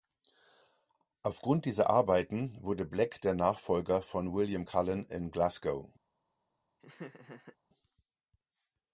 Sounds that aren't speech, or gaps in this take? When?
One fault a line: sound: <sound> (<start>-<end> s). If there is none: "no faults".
sound: laugh (6.8-7.6 s)